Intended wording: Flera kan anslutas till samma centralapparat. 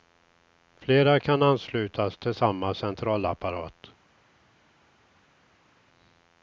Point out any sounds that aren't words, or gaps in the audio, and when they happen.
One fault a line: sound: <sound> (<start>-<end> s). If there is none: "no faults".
no faults